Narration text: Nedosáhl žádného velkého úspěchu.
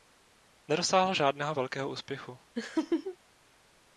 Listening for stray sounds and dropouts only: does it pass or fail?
fail